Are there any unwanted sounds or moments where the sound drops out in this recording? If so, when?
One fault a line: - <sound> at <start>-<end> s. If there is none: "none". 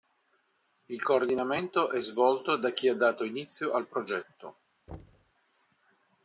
- thud at 4.9-5.3 s